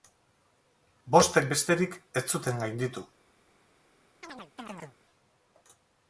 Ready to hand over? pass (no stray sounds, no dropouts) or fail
fail